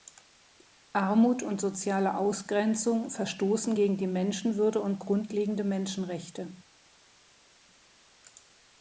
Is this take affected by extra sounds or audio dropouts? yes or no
no